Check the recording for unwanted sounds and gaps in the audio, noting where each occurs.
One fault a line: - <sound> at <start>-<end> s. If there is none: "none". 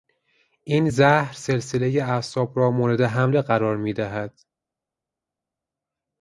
none